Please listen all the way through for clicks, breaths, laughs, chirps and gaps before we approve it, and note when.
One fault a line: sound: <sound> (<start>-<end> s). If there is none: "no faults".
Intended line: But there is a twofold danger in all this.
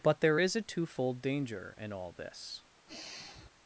sound: sigh (2.9-3.5 s)